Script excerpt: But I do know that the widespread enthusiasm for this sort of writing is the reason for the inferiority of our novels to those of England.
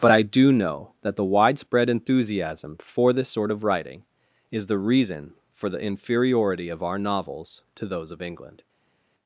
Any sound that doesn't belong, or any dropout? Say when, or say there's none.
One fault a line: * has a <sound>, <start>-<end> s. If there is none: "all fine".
all fine